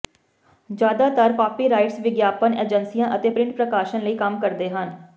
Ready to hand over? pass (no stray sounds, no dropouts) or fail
pass